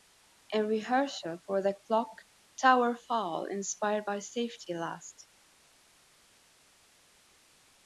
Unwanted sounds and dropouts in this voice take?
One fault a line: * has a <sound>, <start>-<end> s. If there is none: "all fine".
all fine